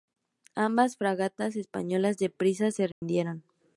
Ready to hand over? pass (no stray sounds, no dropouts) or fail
fail